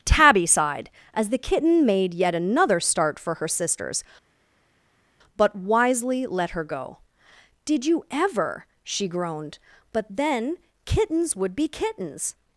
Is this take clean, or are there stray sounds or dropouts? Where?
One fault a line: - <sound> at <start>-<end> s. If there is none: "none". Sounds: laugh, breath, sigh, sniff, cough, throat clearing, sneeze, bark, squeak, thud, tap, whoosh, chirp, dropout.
none